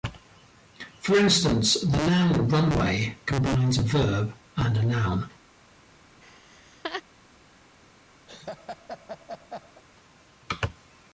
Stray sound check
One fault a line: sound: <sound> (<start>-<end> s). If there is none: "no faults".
sound: laugh (6.2-7.0 s)
sound: laugh (8.3-9.8 s)